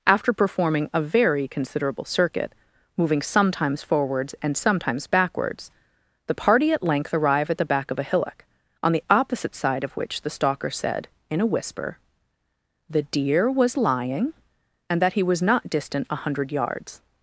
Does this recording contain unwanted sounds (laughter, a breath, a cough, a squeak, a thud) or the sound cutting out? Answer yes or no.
no